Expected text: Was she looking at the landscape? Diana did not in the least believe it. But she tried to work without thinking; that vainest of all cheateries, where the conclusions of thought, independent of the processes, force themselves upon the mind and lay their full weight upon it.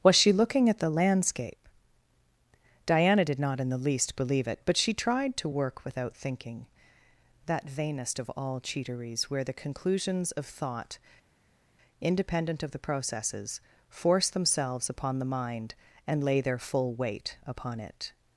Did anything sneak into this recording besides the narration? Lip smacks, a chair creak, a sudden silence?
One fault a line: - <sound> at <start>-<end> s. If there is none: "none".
none